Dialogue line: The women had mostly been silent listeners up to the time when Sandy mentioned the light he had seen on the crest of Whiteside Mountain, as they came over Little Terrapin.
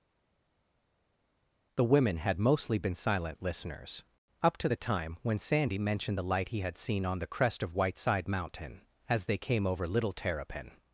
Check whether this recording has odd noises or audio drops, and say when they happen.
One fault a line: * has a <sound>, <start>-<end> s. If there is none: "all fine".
all fine